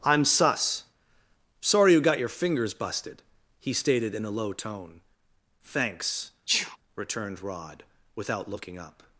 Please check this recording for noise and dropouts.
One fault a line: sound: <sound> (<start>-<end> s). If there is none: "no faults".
sound: sneeze (6.5-6.8 s)